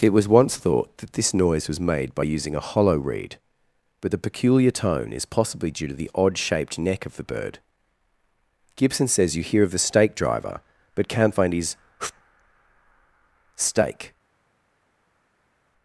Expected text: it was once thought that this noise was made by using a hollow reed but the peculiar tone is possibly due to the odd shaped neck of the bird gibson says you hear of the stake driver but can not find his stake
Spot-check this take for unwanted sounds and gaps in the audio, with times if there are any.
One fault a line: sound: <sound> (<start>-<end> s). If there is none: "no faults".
no faults